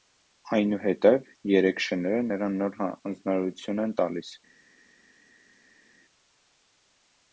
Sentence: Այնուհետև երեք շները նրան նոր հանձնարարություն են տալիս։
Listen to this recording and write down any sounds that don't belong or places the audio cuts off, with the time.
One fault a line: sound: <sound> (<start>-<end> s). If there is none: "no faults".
no faults